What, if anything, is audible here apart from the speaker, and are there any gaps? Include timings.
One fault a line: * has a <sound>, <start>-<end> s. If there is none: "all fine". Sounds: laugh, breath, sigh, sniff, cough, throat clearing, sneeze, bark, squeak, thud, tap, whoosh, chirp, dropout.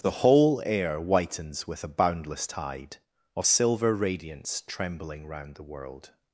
all fine